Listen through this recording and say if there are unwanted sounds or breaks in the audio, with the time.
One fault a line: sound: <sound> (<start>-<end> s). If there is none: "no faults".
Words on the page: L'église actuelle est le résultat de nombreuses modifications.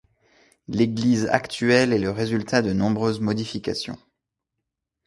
no faults